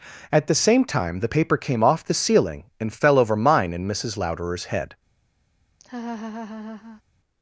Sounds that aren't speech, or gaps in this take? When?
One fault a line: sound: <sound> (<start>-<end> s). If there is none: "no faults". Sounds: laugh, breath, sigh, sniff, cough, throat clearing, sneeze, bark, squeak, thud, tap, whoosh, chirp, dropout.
sound: laugh (5.8-7.0 s)